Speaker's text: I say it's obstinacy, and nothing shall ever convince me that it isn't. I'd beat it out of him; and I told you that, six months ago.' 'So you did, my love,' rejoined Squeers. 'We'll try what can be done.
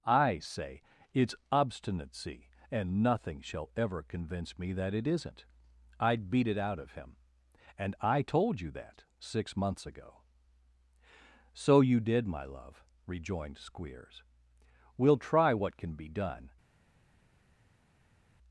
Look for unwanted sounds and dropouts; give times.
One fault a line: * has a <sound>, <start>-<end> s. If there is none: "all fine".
all fine